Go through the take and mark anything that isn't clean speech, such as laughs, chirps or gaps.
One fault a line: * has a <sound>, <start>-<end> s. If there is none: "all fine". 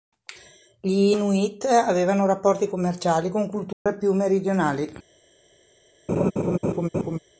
* has a dropout, 3.7-3.9 s
* has a laugh, 6.1-7.2 s